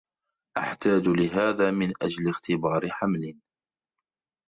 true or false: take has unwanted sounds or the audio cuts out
false